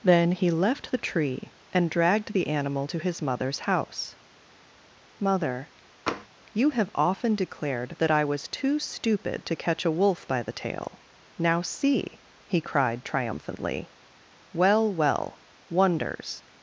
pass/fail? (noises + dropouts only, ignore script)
fail